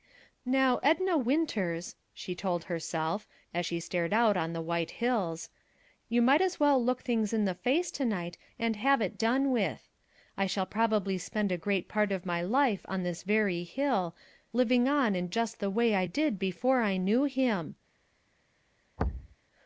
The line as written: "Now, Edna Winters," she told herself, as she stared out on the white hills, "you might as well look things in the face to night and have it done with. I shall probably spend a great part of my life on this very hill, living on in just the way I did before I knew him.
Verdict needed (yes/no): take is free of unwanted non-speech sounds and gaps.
no